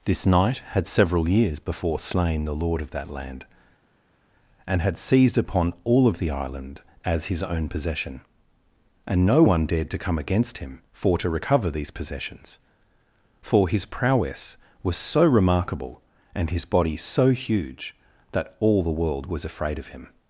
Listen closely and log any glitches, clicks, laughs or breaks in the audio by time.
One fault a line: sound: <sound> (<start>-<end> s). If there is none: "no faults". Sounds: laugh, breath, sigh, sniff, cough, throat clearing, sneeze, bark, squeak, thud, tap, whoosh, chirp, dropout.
no faults